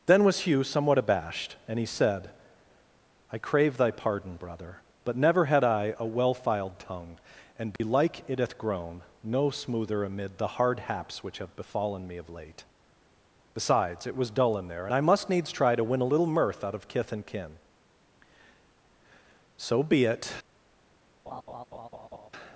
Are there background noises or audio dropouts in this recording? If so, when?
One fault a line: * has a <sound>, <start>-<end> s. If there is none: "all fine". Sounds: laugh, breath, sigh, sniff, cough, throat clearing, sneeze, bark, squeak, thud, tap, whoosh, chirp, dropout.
* has a dropout, 7.8-7.8 s
* has a laugh, 21.3-22.3 s